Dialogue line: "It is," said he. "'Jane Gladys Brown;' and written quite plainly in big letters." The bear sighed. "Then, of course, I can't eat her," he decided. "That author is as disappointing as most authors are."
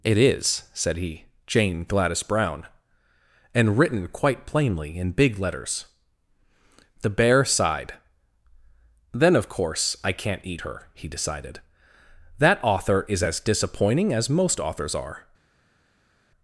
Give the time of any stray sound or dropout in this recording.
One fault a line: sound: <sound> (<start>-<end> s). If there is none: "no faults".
no faults